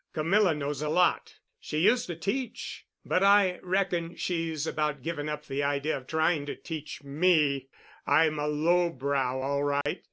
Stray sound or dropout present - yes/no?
yes